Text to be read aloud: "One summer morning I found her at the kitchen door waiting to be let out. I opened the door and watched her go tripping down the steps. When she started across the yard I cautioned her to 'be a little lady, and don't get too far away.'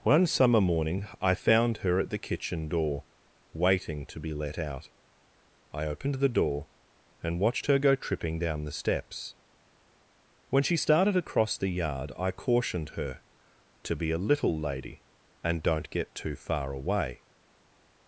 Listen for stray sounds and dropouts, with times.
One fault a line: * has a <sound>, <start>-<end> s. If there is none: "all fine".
all fine